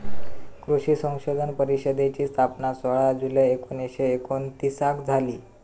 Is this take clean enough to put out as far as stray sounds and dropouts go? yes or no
yes